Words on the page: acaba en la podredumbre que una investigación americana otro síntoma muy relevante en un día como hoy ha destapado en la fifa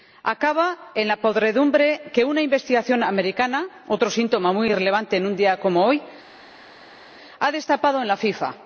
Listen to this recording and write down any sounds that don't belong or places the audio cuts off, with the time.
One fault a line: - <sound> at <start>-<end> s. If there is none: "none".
none